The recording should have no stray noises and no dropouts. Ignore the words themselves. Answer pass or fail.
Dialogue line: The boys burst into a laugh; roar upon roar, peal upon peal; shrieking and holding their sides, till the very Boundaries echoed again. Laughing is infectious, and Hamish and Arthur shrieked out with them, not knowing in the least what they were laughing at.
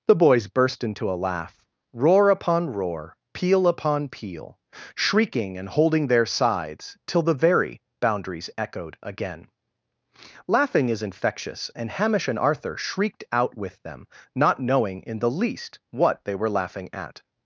pass